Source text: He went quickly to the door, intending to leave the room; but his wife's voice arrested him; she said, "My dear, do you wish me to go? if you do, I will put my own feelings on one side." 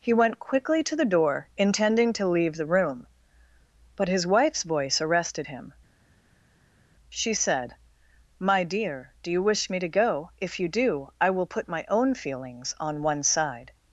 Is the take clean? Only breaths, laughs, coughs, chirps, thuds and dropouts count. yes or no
yes